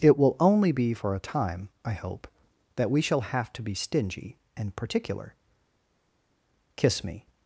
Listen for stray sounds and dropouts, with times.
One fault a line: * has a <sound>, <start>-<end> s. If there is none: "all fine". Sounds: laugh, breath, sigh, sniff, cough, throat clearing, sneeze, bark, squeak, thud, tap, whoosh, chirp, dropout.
all fine